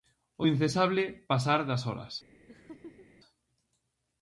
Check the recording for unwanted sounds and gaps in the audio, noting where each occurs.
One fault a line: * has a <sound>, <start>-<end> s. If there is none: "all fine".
* has a laugh, 2.5-3.1 s